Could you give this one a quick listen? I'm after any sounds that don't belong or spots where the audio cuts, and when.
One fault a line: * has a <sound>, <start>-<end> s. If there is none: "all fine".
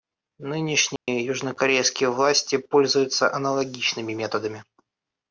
* has a dropout, 1.0-1.1 s